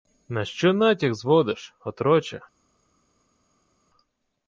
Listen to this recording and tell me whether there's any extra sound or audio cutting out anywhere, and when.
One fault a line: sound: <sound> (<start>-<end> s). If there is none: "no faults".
no faults